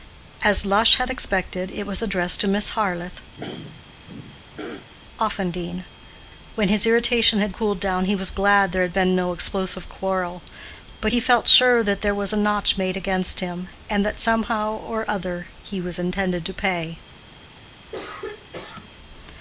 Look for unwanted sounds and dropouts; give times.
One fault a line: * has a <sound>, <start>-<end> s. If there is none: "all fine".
* has a throat clearing, 3.4-4.9 s
* has a throat clearing, 17.9-18.9 s